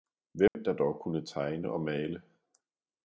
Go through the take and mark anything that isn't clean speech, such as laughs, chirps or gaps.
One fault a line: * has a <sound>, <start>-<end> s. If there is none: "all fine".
* has a dropout, 0.5-0.6 s